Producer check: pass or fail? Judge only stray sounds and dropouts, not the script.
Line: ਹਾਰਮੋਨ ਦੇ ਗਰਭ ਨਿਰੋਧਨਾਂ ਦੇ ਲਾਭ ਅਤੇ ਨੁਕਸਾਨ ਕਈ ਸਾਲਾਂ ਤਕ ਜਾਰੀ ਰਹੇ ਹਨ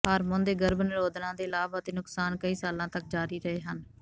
pass